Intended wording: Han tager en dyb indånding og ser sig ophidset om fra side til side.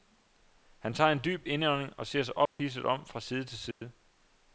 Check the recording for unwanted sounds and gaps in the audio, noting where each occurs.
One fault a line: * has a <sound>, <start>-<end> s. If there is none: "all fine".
* has a dropout, 2.5-2.6 s
* has a dropout, 3.7-3.8 s